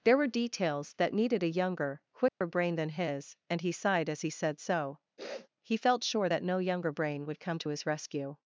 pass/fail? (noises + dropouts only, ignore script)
fail